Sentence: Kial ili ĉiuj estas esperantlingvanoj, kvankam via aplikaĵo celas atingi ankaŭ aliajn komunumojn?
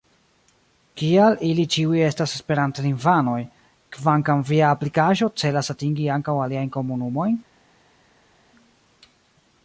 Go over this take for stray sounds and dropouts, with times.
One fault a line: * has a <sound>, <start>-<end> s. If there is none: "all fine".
all fine